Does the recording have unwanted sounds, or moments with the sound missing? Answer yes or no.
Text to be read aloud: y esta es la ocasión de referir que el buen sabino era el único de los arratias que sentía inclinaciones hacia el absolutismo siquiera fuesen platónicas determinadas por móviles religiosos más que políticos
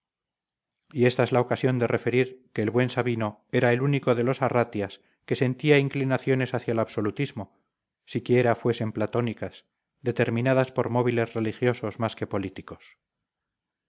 no